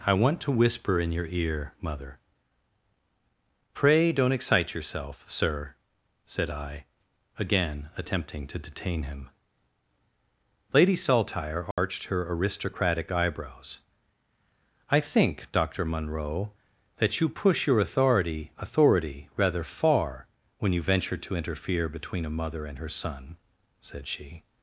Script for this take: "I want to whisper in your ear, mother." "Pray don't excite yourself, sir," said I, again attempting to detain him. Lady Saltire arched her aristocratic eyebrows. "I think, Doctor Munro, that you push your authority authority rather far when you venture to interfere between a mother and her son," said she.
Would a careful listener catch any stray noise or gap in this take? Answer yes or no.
yes